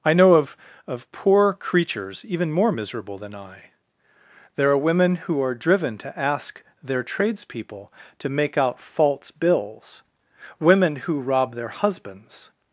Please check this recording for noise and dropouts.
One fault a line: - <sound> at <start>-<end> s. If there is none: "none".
none